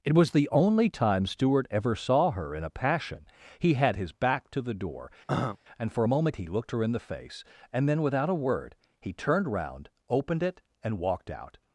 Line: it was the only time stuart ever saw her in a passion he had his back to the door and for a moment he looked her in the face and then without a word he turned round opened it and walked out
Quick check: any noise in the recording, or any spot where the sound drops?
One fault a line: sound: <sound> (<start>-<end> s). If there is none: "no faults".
sound: throat clearing (5.3-5.6 s)